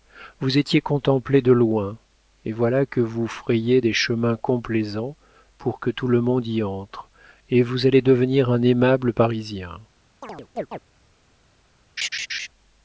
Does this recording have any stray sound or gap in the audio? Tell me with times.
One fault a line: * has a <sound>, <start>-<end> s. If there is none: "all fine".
* has a chirp, 10.2-10.8 s
* has a laugh, 12.0-12.5 s